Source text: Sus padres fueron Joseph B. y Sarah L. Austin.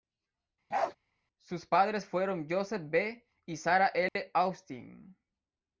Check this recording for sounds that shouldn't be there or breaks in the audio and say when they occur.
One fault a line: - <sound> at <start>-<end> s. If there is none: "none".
- bark at 0.7-1.0 s
- dropout at 4.1-4.2 s